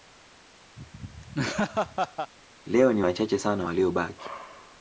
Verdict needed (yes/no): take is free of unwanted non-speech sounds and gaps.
no